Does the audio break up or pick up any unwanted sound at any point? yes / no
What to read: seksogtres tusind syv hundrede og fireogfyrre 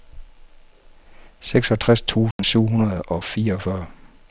yes